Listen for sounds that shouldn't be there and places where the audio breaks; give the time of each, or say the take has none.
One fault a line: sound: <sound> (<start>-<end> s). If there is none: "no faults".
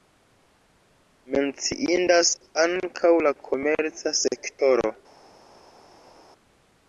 no faults